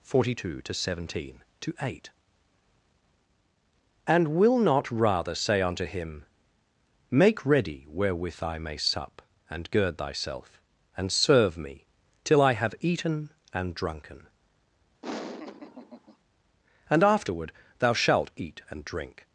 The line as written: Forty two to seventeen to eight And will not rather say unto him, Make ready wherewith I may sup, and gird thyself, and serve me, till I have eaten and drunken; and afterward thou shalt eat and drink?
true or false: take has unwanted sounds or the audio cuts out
true